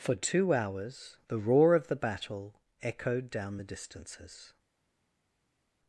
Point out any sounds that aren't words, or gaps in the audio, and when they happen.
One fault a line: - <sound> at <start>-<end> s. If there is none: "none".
none